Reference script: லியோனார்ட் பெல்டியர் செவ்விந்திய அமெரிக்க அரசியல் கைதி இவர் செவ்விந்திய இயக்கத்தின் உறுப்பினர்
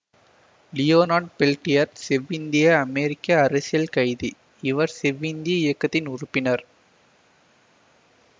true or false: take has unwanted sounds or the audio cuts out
false